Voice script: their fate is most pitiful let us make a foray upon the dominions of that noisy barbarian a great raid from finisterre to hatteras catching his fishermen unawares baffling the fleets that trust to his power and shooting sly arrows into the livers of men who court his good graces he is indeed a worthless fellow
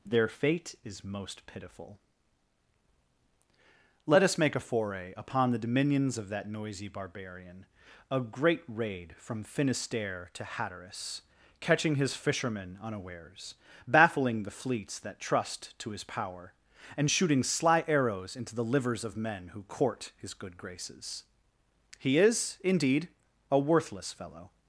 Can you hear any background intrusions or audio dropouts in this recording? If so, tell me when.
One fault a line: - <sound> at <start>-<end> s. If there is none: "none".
none